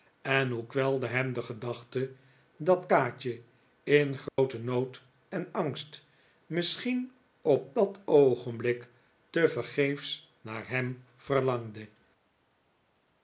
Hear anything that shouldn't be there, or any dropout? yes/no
yes